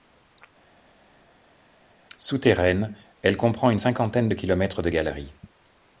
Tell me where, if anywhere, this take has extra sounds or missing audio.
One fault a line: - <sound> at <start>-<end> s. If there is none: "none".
none